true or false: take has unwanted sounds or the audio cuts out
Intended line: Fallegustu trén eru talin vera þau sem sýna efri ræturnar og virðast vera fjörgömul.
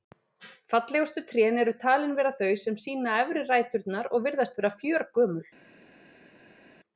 false